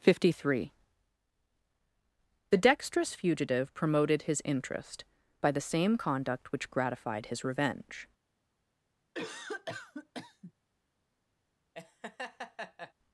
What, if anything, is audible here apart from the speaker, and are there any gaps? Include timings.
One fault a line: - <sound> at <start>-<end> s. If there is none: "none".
- cough at 9.1-10.5 s
- laugh at 11.7-12.9 s